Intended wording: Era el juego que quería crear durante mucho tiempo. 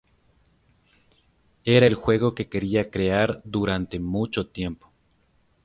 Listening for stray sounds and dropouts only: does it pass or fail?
pass